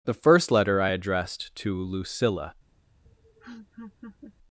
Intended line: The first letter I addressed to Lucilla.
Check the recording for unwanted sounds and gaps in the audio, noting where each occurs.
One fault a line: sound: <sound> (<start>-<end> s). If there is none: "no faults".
sound: laugh (3.1-4.4 s)